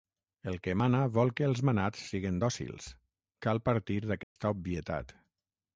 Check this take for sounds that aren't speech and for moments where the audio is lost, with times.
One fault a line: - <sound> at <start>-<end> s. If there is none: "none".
- dropout at 4.2-4.4 s